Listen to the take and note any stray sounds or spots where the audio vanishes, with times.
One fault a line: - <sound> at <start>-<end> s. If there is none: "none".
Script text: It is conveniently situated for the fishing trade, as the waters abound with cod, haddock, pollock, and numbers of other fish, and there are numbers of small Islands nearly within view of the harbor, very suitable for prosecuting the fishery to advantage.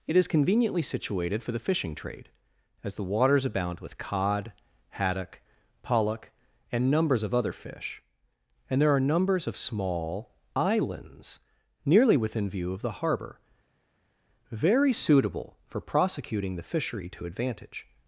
none